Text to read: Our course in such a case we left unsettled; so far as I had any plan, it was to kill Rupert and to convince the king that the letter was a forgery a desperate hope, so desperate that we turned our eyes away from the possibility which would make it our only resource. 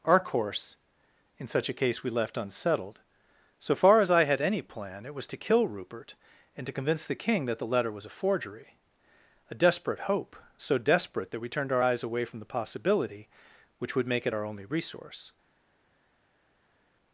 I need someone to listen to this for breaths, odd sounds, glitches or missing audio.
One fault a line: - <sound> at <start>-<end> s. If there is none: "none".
none